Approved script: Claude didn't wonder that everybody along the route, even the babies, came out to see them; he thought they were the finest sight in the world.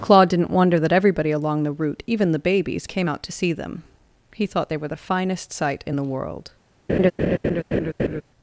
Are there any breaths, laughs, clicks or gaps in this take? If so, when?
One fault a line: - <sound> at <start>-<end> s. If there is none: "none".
- laugh at 6.9-8.2 s